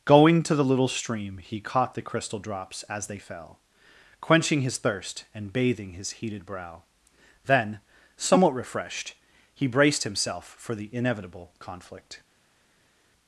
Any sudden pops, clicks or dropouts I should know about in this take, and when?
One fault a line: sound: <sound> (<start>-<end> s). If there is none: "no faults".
no faults